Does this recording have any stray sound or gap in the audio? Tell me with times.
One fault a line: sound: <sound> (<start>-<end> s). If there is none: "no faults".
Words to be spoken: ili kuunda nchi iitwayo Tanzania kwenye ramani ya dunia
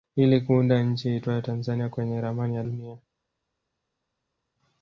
no faults